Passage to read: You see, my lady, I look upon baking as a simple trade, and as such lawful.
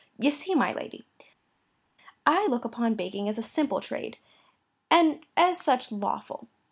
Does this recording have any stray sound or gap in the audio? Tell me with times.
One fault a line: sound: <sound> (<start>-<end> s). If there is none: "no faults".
no faults